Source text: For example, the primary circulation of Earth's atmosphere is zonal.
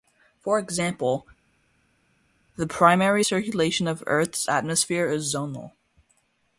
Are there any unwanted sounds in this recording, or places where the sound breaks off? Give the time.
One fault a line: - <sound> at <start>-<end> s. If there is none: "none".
none